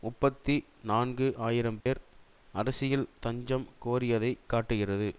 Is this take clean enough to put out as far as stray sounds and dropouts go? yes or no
no